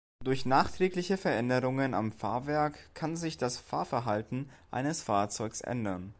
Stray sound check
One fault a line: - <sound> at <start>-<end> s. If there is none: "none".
none